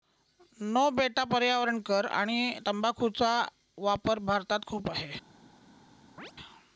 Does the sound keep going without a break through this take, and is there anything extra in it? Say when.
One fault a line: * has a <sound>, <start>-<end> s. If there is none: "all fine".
* has a chirp, 6.2-6.3 s